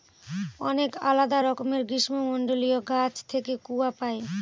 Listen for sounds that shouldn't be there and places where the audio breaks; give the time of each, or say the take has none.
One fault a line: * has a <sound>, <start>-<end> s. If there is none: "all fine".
all fine